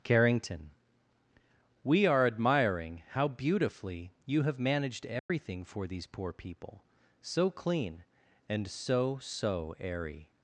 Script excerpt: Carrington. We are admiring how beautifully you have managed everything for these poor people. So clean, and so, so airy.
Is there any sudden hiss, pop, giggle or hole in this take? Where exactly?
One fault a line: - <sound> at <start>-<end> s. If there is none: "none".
- dropout at 5.2-5.3 s